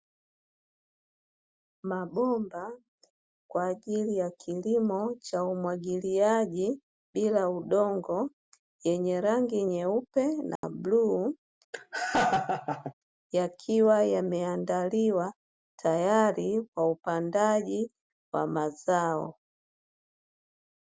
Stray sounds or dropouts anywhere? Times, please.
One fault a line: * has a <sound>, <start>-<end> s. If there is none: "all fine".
* has a dropout, 10.6-10.6 s
* has a laugh, 11.7-12.9 s